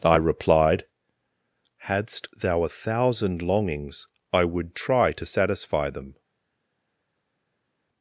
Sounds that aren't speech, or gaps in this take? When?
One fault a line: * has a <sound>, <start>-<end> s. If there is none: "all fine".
all fine